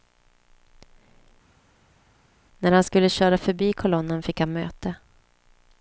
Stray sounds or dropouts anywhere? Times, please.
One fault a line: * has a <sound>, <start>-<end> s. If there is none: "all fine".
all fine